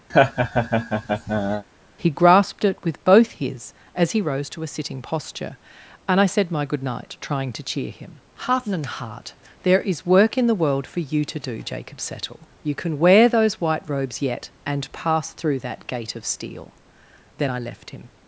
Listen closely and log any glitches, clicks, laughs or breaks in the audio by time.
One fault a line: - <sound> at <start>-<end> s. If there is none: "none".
- laugh at 0.1-1.6 s